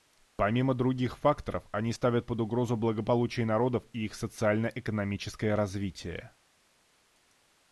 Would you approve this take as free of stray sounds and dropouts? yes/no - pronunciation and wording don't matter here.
yes